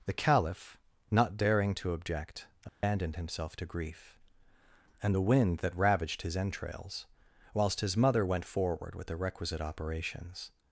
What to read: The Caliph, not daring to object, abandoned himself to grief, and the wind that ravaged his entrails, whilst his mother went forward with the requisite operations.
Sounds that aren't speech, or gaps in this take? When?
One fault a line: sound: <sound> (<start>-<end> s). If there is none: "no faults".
sound: dropout (2.7-2.8 s)